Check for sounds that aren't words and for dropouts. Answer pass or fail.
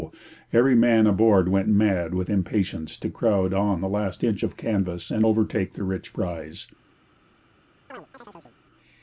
fail